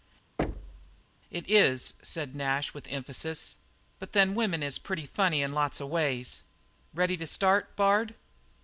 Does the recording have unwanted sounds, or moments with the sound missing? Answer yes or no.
yes